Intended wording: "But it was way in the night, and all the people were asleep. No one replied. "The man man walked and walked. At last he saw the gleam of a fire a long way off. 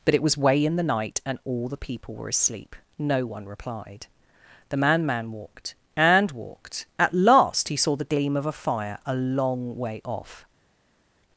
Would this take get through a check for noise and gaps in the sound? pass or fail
pass